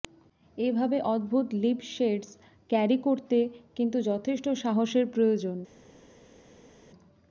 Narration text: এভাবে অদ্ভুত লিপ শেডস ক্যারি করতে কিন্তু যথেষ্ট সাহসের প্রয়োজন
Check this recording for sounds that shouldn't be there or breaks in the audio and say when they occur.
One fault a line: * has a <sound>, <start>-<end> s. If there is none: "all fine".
all fine